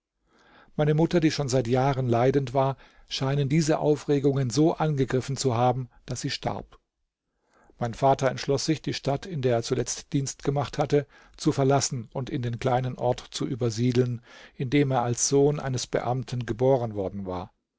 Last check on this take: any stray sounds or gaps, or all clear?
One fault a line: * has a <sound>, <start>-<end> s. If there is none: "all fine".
all fine